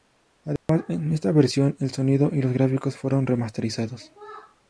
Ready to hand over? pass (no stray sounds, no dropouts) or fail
fail